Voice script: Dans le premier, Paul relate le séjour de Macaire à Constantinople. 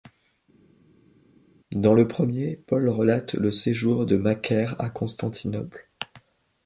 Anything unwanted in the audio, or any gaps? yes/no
no